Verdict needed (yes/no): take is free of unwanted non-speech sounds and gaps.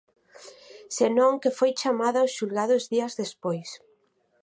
yes